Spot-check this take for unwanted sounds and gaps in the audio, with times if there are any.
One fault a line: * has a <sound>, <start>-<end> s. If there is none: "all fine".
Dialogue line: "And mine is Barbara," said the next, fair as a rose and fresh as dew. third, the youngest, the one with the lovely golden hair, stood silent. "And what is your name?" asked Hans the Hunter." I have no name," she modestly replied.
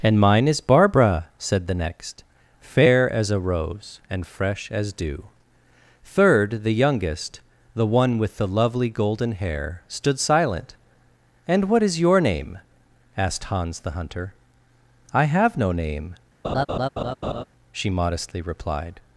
* has a laugh, 16.4-17.4 s